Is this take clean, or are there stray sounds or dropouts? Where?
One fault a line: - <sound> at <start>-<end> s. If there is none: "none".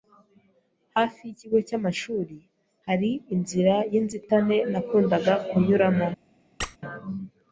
- squeak at 6.6-6.8 s